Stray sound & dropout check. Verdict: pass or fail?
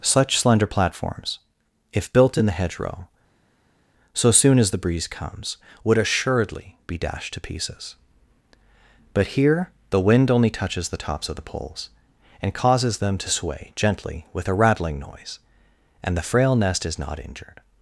pass